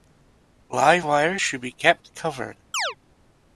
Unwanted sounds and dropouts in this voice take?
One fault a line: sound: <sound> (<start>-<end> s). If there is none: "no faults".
sound: chirp (2.7-3.0 s)